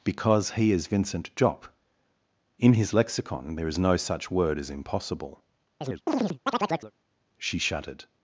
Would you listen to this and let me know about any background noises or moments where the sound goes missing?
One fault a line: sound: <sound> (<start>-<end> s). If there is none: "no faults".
sound: chirp (5.8-6.9 s)